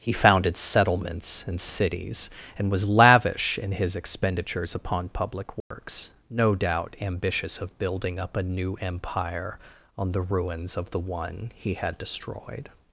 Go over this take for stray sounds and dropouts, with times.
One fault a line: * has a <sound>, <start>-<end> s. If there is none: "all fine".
* has a dropout, 5.6-5.7 s